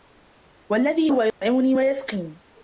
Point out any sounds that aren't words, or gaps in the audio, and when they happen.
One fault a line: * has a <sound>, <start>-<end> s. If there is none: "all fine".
* has a dropout, 1.3-1.4 s